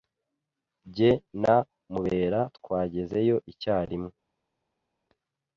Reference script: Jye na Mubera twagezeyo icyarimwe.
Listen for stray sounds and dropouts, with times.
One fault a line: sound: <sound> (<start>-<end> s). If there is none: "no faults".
no faults